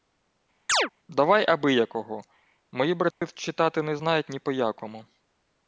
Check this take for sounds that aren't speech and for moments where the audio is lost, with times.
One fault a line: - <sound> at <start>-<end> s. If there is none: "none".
- chirp at 0.7-0.9 s
- dropout at 3.1-3.2 s